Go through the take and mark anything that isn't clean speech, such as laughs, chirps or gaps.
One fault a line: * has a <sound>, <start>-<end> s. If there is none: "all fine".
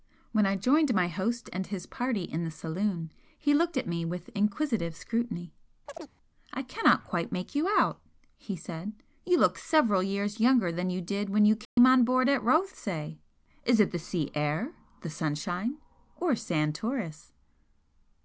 * has a chirp, 5.9-6.1 s
* has a dropout, 11.6-11.8 s